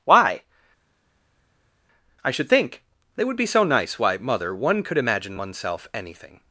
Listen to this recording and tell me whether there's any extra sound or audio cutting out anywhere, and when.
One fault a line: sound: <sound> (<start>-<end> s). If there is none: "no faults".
no faults